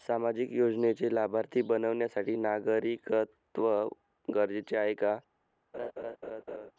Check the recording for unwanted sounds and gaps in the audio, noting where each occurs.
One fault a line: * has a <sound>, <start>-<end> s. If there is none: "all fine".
* has a laugh, 5.7-6.7 s